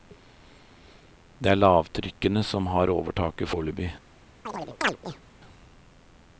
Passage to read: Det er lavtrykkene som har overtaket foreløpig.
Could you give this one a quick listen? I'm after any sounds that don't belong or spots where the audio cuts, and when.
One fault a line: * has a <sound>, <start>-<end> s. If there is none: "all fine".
* has a chirp, 4.5-5.2 s